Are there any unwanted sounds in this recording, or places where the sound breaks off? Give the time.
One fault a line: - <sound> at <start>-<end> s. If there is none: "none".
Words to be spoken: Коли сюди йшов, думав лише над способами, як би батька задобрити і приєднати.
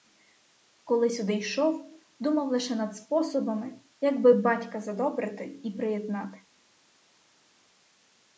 none